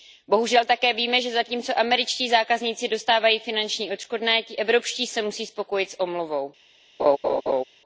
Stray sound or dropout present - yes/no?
yes